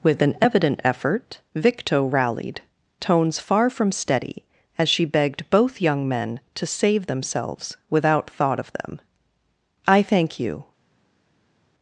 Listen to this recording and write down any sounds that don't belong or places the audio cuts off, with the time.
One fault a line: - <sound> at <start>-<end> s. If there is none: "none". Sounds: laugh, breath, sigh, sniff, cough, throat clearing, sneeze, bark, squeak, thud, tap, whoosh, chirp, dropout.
none